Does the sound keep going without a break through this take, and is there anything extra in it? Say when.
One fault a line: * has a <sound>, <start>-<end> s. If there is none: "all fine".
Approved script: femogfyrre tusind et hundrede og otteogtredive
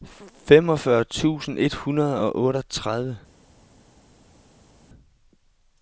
all fine